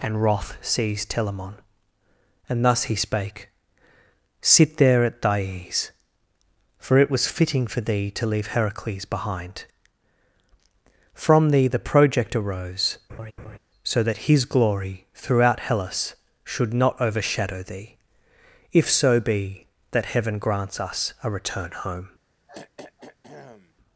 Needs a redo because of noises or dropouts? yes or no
yes